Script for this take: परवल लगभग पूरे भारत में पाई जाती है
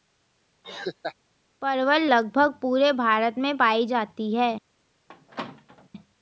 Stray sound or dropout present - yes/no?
yes